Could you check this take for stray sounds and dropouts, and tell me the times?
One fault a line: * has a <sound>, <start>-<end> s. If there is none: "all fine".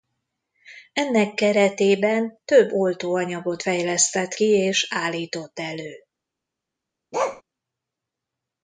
* has a bark, 7.1-7.4 s